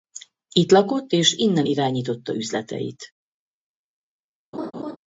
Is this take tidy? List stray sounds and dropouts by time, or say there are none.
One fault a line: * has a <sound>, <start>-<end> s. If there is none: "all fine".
* has a laugh, 4.5-5.0 s